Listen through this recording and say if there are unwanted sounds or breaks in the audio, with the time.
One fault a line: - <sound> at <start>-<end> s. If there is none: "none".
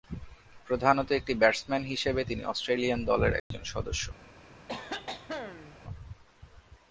- dropout at 3.4-3.5 s
- cough at 4.7-5.8 s